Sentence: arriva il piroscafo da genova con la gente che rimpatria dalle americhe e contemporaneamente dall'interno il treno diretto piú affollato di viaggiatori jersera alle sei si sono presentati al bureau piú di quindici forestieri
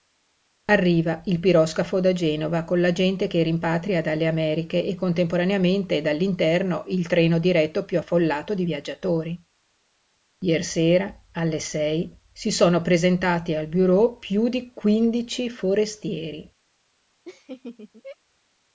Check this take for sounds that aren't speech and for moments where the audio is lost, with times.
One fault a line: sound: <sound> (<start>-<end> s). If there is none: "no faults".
sound: laugh (17.3-18.2 s)